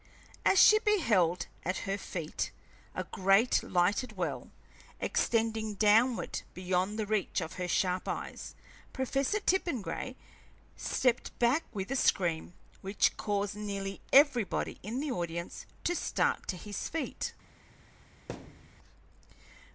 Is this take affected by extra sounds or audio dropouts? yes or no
yes